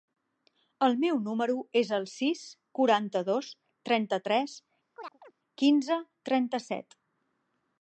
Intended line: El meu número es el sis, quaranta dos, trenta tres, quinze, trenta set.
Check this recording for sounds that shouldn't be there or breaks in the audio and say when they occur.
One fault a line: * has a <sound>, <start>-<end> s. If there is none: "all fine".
* has a chirp, 4.9-5.3 s